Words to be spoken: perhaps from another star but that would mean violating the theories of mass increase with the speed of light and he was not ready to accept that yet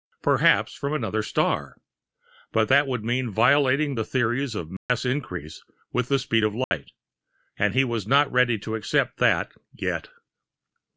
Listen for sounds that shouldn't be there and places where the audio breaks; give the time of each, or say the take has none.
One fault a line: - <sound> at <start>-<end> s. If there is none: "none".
- dropout at 4.8-4.9 s
- dropout at 6.6-6.7 s